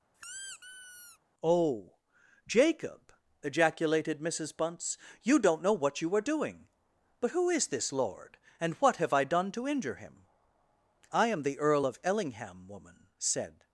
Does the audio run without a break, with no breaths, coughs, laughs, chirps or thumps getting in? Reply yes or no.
no